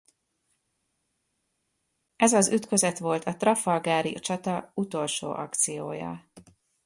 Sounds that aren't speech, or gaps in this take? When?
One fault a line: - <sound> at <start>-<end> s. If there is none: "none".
none